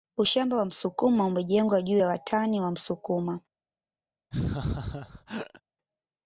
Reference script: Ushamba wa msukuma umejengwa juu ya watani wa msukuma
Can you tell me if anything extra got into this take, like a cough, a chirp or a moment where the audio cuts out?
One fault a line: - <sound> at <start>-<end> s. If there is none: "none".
- laugh at 4.3-5.6 s